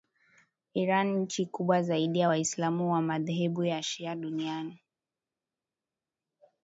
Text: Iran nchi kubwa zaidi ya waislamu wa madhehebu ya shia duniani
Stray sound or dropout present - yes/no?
no